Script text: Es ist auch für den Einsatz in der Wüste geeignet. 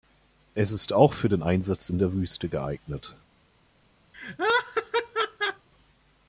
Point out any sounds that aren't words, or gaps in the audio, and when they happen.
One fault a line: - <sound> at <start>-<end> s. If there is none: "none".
- laugh at 4.1-5.7 s